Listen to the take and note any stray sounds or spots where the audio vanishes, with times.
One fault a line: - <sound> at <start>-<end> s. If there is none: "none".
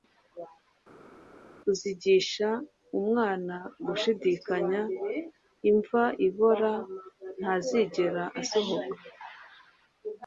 none